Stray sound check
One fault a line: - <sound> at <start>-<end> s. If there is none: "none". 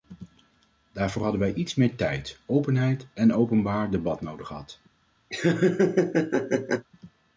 - laugh at 5.3-6.9 s